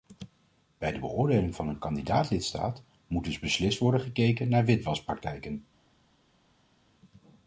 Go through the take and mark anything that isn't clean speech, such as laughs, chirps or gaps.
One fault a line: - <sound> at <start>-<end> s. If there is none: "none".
none